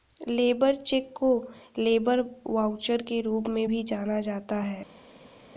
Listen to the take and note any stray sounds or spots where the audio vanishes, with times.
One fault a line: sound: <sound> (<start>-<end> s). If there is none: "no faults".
no faults